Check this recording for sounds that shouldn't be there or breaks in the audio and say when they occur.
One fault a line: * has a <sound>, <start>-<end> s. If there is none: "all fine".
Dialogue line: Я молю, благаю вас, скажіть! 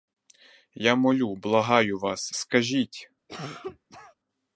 * has a cough, 3.3-4.1 s